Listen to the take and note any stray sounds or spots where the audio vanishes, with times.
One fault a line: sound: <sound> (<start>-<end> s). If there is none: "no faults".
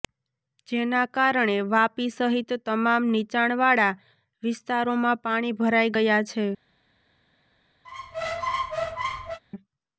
sound: squeak (7.8-9.4 s)